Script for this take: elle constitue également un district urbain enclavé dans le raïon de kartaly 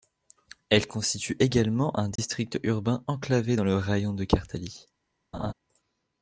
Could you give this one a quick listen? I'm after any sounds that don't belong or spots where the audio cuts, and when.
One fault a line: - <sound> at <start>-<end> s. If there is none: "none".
- dropout at 2.2-2.2 s
- laugh at 5.3-5.5 s